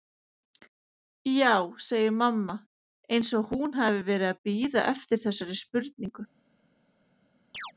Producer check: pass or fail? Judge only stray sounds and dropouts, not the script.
fail